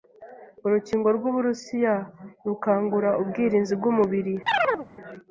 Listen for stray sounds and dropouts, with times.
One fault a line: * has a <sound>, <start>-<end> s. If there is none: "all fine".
* has a chirp, 4.5-4.9 s